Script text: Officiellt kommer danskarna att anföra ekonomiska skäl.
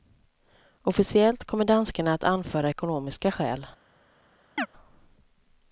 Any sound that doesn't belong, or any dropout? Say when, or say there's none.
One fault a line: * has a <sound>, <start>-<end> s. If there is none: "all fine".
* has a chirp, 4.6-4.7 s